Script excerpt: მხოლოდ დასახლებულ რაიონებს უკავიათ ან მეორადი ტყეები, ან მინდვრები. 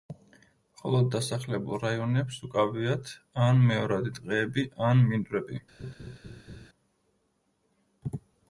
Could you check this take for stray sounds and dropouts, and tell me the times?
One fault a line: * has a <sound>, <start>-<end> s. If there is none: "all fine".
* has a laugh, 5.8-6.7 s